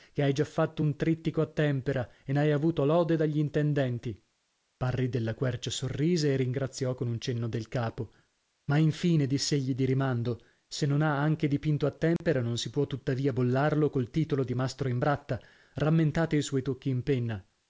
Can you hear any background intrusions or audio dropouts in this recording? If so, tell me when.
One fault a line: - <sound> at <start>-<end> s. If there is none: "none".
- dropout at 12.2-12.2 s